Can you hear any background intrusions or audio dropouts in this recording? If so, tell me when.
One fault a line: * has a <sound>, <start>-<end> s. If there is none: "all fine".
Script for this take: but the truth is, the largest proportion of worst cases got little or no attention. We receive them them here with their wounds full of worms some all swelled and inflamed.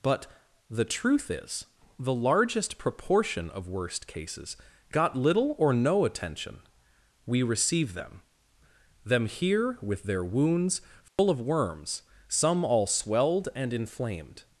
* has a dropout, 11.1-11.2 s